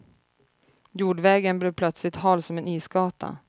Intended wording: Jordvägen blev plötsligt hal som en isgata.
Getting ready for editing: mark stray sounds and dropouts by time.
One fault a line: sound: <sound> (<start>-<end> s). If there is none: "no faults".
no faults